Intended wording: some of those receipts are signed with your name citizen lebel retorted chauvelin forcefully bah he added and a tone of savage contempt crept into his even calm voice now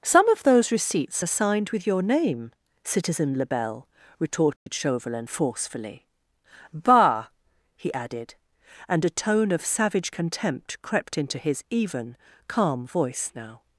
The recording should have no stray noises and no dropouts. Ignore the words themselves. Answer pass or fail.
fail